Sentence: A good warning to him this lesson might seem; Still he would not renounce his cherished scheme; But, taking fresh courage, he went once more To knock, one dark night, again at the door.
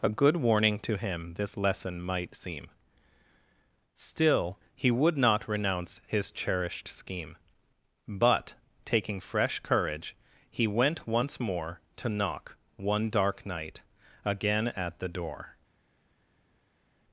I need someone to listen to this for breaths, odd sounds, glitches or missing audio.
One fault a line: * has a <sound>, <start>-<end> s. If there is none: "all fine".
all fine